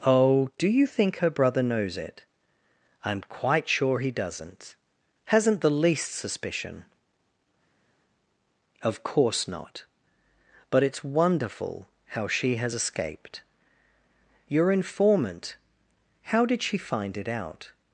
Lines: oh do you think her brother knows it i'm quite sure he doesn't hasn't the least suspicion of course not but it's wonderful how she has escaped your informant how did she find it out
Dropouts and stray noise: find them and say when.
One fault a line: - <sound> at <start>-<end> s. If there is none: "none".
none